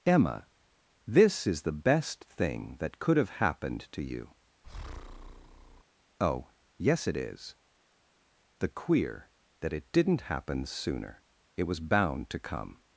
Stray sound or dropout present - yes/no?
yes